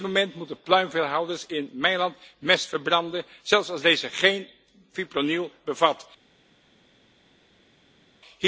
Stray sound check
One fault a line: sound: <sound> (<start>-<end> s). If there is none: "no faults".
no faults